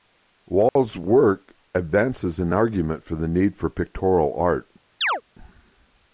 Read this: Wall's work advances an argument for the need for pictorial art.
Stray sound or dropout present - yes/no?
yes